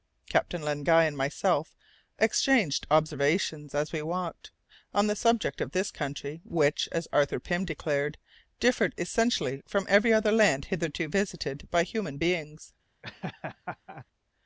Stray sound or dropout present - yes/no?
yes